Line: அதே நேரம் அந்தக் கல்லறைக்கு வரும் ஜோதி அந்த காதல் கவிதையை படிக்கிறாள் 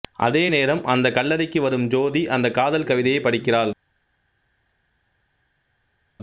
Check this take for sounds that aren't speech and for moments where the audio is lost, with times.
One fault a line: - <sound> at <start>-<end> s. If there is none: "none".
none